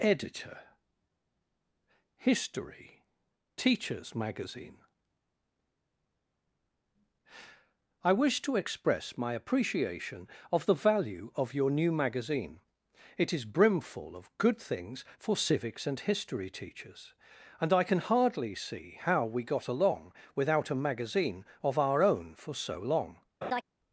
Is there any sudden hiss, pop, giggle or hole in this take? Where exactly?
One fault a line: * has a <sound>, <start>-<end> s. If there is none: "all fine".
* has a laugh, 23.4-23.6 s